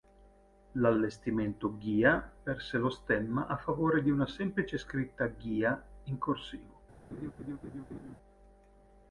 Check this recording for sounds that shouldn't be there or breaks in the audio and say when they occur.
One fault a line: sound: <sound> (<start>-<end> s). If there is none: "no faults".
sound: laugh (7.1-8.2 s)